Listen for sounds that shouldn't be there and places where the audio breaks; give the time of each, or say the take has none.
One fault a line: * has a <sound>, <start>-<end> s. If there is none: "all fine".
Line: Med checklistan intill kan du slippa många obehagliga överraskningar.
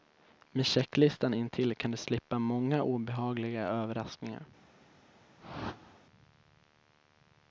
* has a whoosh, 5.4-6.0 s